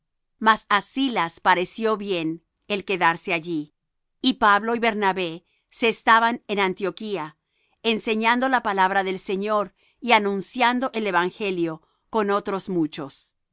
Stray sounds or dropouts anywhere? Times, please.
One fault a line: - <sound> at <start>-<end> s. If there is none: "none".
none